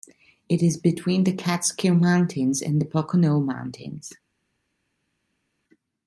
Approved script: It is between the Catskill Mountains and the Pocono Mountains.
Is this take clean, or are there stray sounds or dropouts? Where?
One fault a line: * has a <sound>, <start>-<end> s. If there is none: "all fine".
all fine